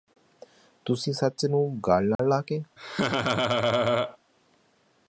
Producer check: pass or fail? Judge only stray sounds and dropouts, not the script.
fail